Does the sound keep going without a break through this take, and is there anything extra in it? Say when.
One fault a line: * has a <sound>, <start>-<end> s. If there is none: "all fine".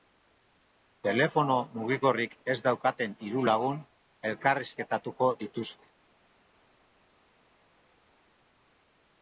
all fine